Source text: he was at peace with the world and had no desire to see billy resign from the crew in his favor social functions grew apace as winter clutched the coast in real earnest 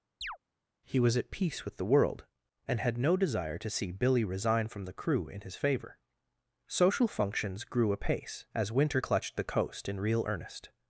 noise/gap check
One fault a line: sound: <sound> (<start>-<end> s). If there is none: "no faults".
sound: chirp (0.2-0.4 s)